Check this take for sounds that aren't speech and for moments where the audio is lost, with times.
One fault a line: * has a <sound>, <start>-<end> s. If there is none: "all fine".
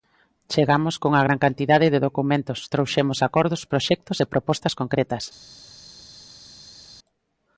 all fine